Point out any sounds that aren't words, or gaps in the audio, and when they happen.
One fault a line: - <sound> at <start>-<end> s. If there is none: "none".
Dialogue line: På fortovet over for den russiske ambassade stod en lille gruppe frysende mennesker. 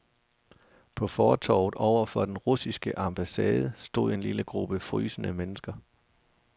none